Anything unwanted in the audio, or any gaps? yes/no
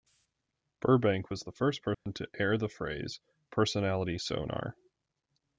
yes